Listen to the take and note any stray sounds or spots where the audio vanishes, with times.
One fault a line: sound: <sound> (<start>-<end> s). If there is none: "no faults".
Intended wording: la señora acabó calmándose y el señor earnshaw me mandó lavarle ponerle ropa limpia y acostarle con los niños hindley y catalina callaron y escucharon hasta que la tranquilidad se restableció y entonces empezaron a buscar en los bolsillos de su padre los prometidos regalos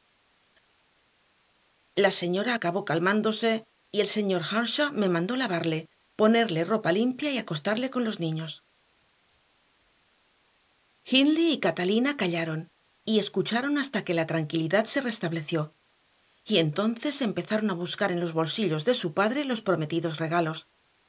no faults